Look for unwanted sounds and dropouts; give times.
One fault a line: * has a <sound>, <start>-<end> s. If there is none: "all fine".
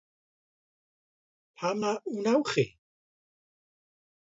all fine